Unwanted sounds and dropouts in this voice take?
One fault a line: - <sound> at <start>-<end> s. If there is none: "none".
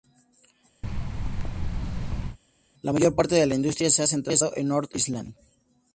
- thud at 0.8-2.4 s